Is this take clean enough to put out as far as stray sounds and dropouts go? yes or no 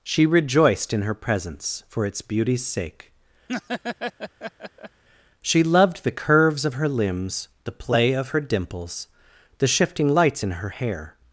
no